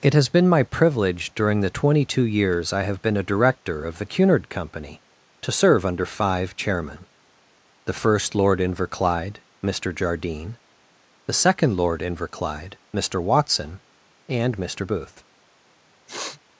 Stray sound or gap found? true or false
true